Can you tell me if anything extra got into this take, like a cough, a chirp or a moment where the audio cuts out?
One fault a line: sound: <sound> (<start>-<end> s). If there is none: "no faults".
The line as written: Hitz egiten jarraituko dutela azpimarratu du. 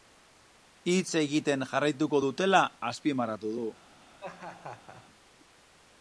sound: laugh (4.2-5.0 s)